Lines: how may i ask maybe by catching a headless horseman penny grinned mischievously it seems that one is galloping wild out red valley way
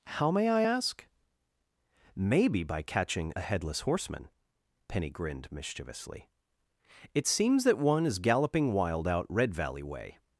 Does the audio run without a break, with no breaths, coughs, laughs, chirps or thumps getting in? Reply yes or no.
yes